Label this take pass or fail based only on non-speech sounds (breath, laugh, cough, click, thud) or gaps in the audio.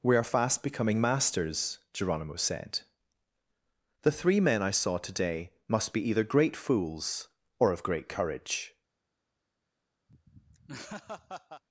fail